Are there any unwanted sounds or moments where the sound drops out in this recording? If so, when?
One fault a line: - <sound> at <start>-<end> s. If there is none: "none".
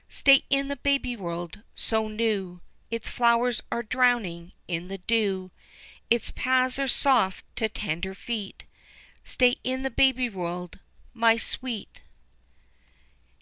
none